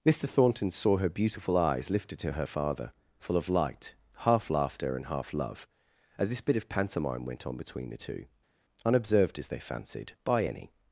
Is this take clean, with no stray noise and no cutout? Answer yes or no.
yes